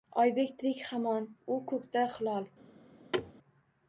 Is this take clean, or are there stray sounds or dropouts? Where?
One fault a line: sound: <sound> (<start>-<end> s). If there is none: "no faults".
sound: thud (3.1-3.3 s)